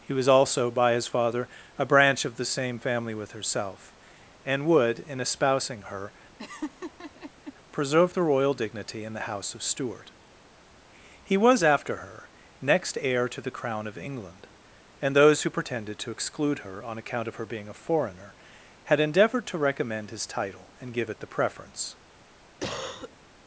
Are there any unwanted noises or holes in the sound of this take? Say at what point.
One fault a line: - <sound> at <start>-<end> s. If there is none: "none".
- laugh at 6.4-7.5 s
- cough at 22.6-23.2 s